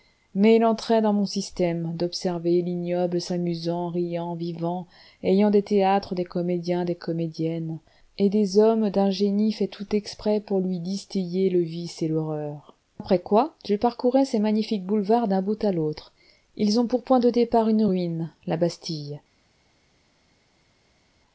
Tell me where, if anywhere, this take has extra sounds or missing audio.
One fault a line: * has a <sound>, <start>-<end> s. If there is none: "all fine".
all fine